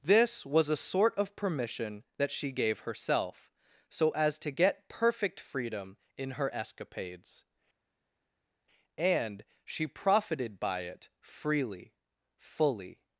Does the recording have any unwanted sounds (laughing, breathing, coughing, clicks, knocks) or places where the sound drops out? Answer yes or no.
no